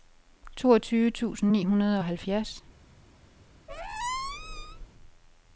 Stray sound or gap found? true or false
true